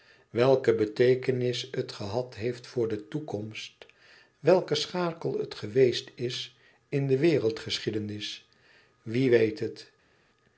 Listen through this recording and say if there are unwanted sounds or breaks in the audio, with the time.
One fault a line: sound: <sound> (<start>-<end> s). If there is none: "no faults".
no faults